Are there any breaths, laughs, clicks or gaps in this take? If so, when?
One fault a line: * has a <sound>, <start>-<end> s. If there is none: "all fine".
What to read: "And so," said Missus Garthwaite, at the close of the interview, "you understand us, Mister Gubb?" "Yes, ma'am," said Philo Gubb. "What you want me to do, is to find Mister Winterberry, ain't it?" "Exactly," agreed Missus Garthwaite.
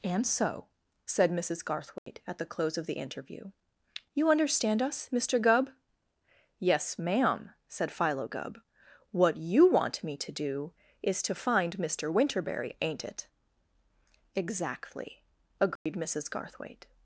* has a dropout, 2.0-2.1 s
* has a dropout, 15.8-15.9 s